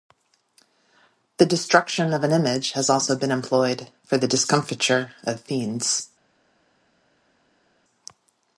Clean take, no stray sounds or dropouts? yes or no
yes